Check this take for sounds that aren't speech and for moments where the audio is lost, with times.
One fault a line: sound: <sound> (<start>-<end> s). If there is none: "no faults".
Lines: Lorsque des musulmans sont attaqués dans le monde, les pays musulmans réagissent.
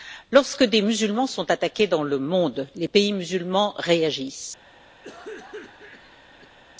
sound: cough (5.0-6.6 s)